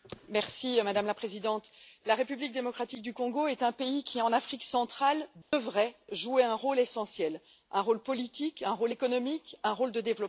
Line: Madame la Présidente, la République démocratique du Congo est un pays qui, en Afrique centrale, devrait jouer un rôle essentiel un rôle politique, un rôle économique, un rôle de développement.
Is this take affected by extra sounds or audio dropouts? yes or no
yes